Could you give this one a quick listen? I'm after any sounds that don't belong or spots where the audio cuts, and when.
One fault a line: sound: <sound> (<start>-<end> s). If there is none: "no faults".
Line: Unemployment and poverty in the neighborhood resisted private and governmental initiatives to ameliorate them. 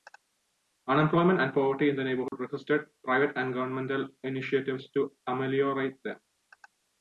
sound: dropout (2.3-2.3 s)